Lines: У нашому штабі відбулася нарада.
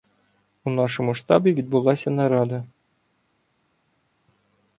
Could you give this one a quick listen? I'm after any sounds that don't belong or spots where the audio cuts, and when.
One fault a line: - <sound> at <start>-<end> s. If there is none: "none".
none